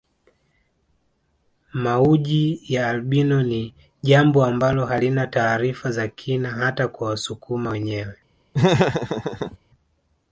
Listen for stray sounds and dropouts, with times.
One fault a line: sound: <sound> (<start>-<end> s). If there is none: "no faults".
sound: laugh (8.5-9.6 s)